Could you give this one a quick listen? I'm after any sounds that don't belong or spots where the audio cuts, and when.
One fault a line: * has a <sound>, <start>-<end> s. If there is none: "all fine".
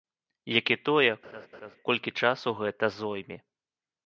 * has a laugh, 1.2-1.8 s